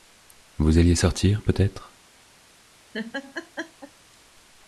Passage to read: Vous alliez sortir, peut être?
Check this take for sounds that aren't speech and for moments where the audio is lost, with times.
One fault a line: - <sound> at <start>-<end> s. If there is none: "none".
- laugh at 2.9-3.9 s